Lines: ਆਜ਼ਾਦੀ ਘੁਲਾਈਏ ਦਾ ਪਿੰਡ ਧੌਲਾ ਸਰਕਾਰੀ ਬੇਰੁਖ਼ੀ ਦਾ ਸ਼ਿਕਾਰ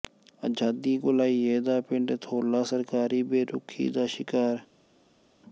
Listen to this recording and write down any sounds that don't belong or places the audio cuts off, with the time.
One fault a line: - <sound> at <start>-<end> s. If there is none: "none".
none